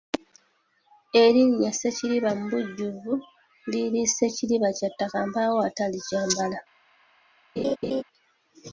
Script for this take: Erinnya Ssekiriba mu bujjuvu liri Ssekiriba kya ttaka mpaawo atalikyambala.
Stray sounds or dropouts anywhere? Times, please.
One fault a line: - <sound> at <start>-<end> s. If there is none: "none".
- laugh at 7.6-8.0 s